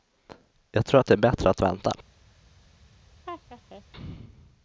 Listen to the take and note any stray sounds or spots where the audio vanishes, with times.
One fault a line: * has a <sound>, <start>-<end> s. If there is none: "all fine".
* has a laugh, 3.3-3.8 s